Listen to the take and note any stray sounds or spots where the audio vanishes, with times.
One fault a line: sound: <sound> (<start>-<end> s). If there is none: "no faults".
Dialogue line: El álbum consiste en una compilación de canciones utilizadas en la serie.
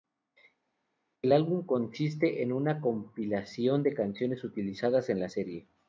no faults